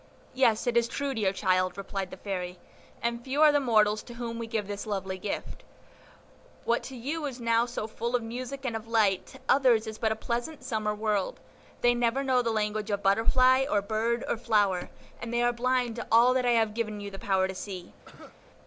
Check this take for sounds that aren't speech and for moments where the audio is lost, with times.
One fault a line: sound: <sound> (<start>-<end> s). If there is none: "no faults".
sound: cough (18.0-18.4 s)